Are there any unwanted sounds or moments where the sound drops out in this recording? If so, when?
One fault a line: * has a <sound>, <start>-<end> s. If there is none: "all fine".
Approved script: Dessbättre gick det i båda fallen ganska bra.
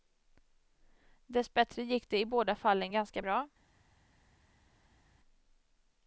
all fine